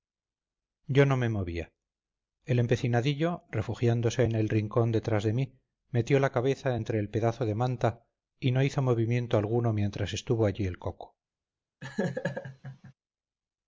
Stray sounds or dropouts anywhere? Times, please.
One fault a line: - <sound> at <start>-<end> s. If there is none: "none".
- laugh at 11.8-12.9 s